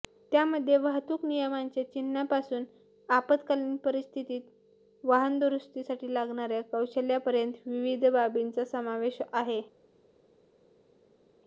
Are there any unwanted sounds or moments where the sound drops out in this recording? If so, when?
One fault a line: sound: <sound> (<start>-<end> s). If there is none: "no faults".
no faults